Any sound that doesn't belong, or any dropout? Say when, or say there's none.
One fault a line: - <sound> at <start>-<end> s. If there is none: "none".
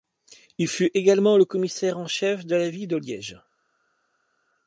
none